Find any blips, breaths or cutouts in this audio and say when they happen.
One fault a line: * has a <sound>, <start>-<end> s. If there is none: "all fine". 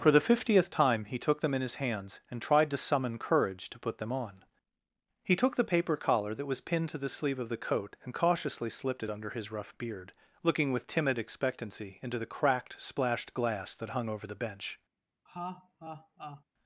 * has a laugh, 15.3-16.4 s